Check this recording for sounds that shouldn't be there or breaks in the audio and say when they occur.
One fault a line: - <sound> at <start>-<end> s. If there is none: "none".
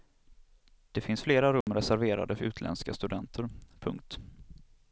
- dropout at 1.6-1.7 s